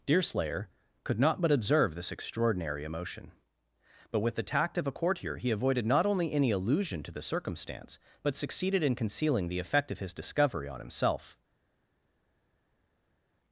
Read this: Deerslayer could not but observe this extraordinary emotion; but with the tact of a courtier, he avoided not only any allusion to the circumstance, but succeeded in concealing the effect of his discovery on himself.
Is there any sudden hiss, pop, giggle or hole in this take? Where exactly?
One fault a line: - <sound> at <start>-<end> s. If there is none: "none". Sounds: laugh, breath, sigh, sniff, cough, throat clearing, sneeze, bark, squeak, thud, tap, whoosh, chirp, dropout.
none